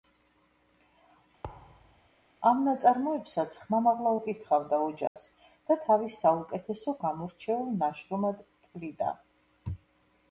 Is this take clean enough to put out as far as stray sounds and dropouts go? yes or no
no